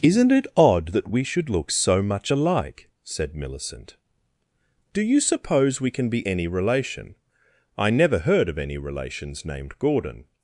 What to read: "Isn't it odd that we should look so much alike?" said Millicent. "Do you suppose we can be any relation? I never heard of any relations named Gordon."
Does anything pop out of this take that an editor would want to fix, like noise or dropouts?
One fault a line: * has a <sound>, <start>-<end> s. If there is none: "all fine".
all fine